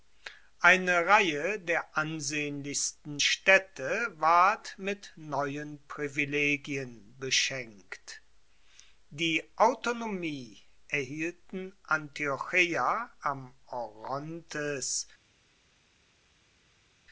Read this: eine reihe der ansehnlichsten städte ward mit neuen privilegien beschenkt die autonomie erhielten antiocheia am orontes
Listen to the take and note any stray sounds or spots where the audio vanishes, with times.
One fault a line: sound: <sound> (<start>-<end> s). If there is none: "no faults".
no faults